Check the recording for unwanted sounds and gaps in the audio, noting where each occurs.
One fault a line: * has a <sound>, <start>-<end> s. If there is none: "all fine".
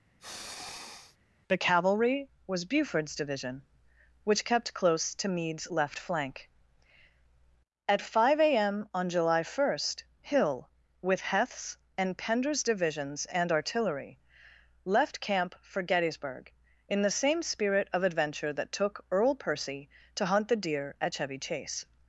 * has a sniff, 0.2-1.2 s